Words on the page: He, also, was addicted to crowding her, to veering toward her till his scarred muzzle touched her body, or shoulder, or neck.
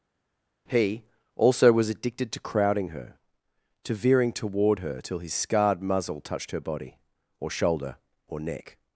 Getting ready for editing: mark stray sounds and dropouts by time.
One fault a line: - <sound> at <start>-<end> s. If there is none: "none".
none